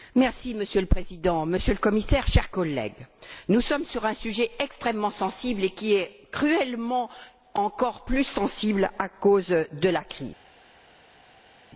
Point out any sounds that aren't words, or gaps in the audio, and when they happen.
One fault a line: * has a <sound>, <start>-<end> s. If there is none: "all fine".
all fine